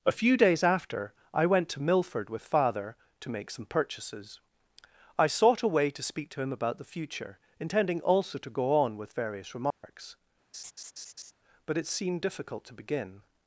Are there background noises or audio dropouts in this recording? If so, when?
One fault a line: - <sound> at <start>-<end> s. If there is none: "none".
- dropout at 9.7-9.8 s
- laugh at 10.5-11.3 s